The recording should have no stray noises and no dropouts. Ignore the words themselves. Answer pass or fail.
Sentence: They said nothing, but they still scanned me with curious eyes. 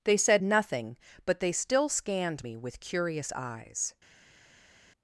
pass